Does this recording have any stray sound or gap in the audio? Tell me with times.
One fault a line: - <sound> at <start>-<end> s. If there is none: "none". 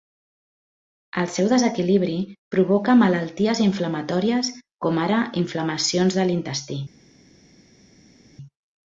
none